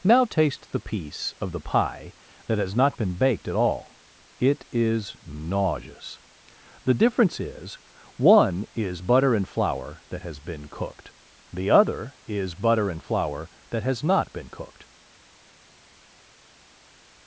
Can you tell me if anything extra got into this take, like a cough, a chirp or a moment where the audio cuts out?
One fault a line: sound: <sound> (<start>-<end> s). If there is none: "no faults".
no faults